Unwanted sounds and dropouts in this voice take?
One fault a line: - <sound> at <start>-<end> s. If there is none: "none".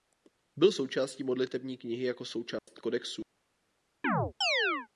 - dropout at 2.6-2.7 s
- chirp at 4.0-4.9 s